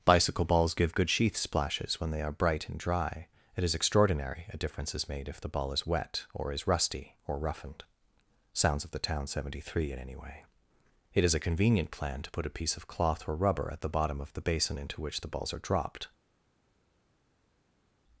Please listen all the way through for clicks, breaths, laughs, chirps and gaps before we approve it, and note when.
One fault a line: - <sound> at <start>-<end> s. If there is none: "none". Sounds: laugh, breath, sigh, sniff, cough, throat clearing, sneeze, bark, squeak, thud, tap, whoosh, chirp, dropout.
none